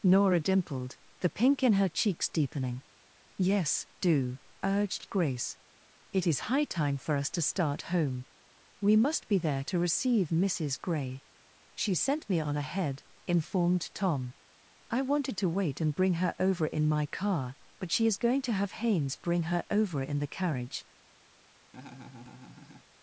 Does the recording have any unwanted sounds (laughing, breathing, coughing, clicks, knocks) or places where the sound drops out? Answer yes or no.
yes